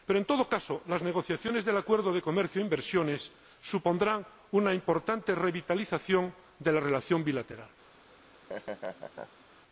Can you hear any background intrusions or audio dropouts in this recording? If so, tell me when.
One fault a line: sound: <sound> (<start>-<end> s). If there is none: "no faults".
sound: laugh (8.1-9.5 s)